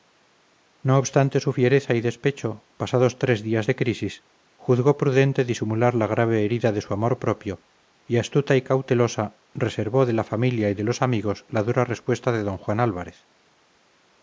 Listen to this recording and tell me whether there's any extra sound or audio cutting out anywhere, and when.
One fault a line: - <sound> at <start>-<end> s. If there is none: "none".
none